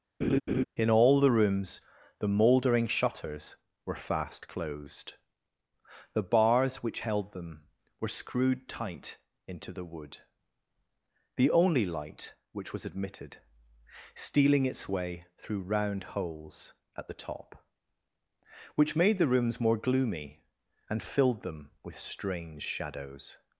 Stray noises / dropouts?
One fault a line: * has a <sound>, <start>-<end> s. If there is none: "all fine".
* has a laugh, 0.2-0.6 s